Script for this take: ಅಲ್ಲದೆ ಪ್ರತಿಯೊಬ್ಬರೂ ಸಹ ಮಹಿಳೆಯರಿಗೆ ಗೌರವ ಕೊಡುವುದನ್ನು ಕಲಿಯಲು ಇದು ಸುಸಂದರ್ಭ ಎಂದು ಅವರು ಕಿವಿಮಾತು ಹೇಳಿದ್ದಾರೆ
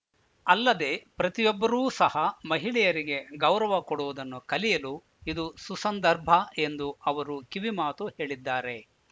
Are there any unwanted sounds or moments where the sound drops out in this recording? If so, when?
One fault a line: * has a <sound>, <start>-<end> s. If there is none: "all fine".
all fine